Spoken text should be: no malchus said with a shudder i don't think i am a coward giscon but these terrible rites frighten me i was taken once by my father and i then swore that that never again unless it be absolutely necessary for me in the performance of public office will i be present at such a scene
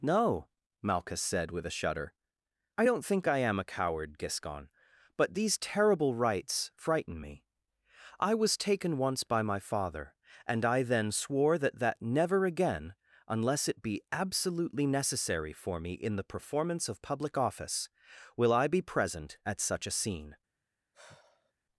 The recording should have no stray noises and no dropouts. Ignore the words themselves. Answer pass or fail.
fail